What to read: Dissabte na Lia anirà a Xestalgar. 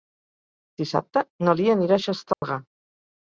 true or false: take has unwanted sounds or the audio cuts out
true